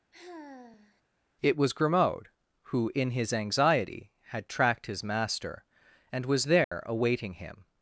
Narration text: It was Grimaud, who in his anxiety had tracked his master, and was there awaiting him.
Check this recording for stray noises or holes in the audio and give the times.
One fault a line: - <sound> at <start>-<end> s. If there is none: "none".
- sigh at 0.1-1.0 s
- dropout at 6.6-6.7 s